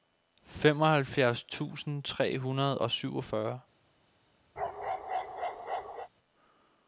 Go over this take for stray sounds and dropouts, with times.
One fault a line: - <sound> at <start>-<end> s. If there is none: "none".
- bark at 4.6-6.1 s